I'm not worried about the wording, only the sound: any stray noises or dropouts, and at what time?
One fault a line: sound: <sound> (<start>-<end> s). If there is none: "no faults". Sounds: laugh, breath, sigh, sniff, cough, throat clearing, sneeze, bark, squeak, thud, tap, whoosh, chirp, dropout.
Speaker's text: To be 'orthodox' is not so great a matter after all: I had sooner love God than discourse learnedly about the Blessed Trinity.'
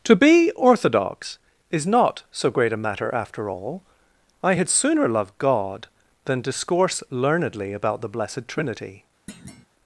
sound: thud (9.3-9.7 s)